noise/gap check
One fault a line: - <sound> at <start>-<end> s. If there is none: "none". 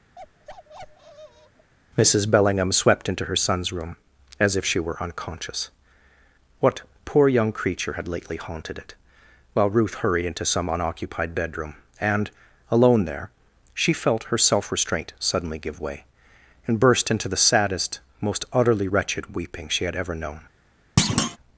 - bark at 0.2-1.7 s
- thud at 21.0-21.4 s